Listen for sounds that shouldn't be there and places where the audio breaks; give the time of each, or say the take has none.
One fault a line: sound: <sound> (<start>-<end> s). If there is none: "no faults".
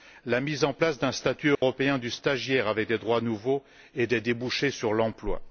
sound: dropout (1.5-1.6 s)